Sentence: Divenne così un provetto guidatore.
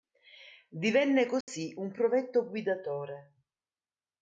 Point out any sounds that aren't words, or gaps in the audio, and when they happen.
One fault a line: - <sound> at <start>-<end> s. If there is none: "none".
- dropout at 1.4-1.5 s